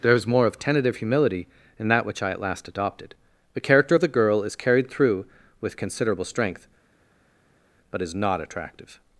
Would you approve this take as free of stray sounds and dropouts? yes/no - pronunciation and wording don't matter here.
yes